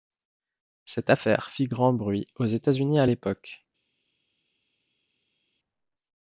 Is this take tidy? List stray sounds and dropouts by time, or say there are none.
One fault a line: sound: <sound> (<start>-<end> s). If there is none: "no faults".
no faults